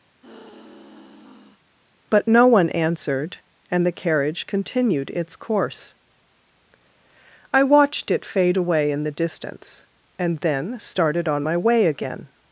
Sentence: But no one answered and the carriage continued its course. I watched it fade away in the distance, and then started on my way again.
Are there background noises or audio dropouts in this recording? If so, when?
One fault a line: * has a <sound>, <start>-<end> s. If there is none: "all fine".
* has a sigh, 0.2-1.6 s